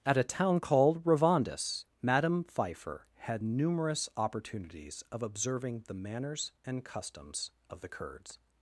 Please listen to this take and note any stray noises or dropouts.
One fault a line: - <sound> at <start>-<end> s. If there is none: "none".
none